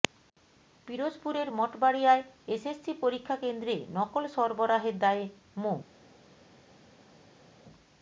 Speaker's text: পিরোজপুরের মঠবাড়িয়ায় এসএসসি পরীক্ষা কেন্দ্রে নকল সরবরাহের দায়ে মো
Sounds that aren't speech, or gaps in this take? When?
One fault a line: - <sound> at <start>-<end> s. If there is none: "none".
none